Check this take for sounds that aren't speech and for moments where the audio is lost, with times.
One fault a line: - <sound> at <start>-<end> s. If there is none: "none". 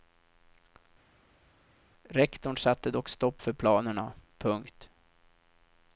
none